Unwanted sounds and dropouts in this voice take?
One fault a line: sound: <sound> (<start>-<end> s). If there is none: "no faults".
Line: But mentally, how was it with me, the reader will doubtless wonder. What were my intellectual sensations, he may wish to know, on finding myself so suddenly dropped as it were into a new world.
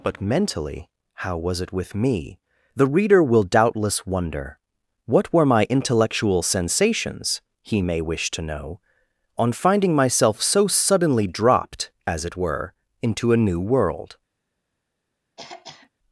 sound: throat clearing (15.4-15.9 s)